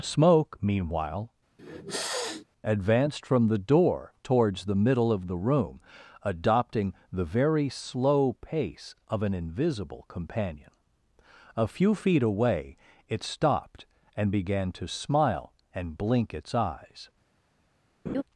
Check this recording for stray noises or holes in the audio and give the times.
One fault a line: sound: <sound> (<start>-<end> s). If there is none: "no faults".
sound: sniff (1.6-2.4 s)
sound: laugh (18.1-18.2 s)